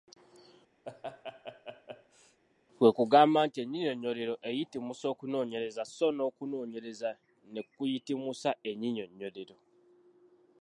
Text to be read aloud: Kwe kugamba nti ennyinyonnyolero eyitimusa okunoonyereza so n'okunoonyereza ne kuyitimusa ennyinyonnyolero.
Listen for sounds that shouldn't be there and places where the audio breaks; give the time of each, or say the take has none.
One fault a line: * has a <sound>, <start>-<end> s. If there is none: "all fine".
* has a laugh, 0.8-2.4 s